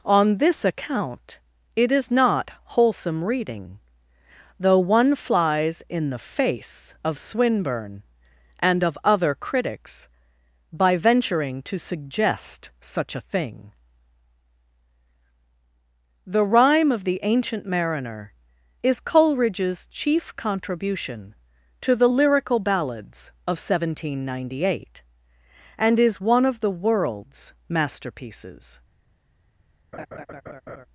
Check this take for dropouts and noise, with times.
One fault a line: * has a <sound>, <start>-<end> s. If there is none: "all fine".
* has a laugh, 29.9-30.9 s